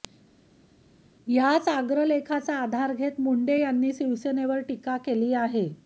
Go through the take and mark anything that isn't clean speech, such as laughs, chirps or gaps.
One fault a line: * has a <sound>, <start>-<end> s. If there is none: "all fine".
all fine